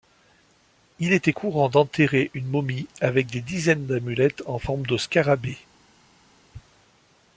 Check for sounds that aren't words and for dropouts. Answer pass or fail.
pass